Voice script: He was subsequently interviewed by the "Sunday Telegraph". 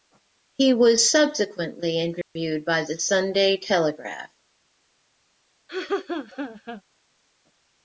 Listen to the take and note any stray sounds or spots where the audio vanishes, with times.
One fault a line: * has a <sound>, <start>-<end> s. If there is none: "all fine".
* has a dropout, 2.2-2.4 s
* has a laugh, 5.7-6.8 s